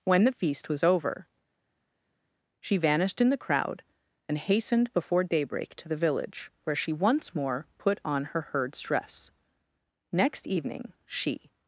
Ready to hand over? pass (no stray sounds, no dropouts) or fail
pass